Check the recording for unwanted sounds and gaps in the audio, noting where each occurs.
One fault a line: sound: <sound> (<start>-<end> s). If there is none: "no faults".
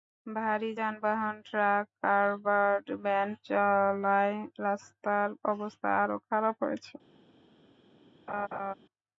sound: laugh (8.3-8.7 s)